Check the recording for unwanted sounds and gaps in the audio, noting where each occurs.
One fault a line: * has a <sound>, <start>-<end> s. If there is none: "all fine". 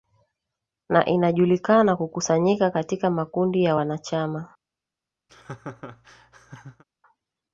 * has a laugh, 5.3-6.8 s